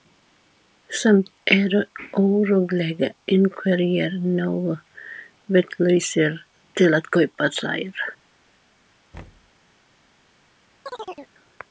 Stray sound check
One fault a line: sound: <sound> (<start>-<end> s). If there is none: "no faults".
sound: thud (9.1-9.5 s)
sound: chirp (10.9-11.3 s)